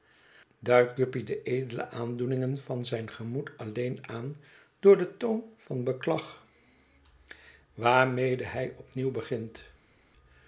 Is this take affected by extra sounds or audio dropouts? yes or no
no